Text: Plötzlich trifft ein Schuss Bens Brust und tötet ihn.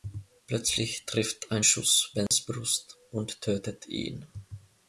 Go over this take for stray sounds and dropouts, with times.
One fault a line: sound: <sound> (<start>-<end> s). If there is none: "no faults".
sound: dropout (2.3-2.3 s)